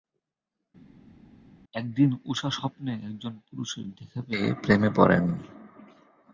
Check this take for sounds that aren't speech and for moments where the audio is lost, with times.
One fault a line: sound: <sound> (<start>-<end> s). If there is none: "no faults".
no faults